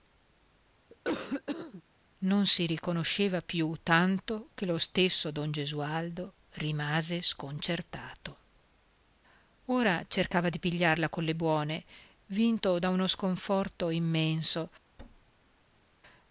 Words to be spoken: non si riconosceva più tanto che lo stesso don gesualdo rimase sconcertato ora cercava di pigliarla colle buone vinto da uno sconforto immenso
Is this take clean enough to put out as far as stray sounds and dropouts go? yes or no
no